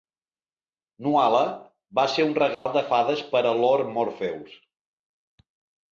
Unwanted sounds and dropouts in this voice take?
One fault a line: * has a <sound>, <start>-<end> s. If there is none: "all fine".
* has a dropout, 2.5-2.7 s